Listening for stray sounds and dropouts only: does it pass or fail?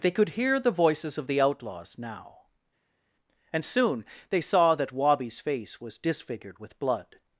pass